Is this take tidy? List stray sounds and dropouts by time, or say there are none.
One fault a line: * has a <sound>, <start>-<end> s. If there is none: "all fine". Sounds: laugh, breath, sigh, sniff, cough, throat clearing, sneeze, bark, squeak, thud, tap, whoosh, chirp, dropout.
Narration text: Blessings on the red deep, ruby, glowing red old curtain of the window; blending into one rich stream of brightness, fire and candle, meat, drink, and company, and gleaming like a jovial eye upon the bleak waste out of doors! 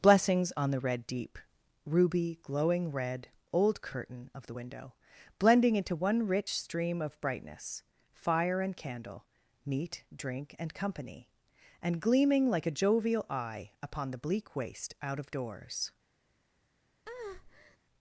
* has a breath, 17.1-17.8 s